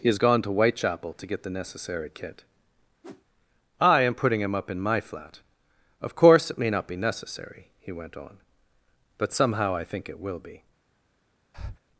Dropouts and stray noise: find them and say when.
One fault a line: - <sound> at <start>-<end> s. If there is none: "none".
- whoosh at 3.0-3.2 s
- breath at 11.5-11.8 s